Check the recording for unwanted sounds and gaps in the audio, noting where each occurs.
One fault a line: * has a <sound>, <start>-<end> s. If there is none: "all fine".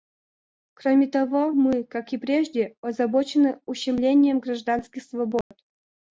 * has a dropout, 5.4-5.5 s